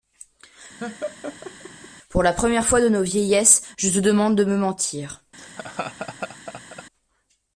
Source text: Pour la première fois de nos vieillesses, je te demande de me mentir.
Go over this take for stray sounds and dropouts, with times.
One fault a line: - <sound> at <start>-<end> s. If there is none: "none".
- laugh at 0.8-1.9 s
- laugh at 5.4-6.8 s